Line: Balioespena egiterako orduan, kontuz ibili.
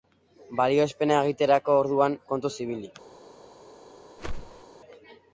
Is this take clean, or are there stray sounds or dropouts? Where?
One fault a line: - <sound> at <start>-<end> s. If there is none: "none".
- whoosh at 4.2-4.6 s